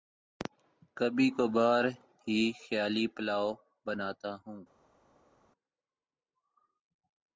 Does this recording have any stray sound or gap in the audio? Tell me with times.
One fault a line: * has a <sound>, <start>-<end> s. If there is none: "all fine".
all fine